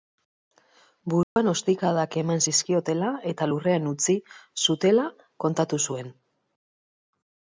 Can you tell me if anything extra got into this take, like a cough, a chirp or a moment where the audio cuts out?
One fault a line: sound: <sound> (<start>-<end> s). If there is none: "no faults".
sound: dropout (1.2-1.4 s)